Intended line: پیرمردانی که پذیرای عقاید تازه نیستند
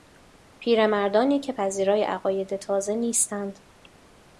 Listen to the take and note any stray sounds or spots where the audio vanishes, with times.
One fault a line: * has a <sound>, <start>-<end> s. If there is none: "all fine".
all fine